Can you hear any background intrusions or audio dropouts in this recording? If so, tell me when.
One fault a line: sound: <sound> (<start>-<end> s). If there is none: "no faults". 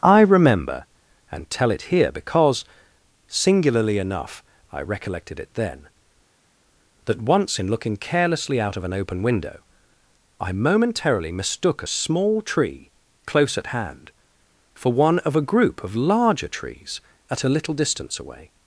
no faults